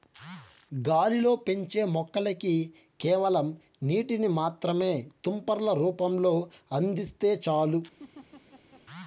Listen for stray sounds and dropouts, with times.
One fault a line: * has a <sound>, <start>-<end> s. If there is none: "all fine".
* has a laugh, 8.0-8.8 s